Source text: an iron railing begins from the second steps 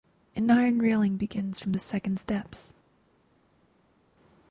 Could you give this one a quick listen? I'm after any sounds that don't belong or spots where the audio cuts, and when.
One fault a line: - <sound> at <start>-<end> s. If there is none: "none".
none